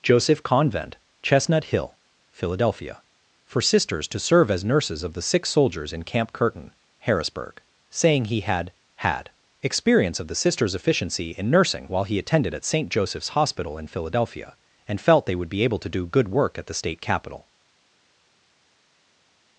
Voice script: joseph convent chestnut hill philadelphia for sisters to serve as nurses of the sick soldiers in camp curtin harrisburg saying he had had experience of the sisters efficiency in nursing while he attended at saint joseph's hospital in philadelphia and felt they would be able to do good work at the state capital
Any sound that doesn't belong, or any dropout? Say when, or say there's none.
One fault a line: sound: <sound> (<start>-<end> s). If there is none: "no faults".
no faults